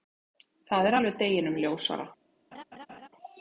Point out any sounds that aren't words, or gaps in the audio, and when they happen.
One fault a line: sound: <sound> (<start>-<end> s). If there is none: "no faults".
sound: laugh (2.5-3.1 s)